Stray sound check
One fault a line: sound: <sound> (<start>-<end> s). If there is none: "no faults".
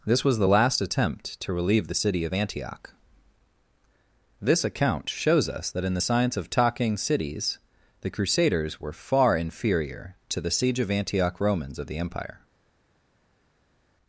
no faults